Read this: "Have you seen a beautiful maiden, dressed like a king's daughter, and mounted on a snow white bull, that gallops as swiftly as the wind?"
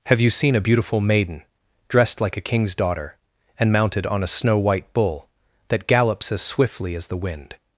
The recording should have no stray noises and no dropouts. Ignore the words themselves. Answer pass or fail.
pass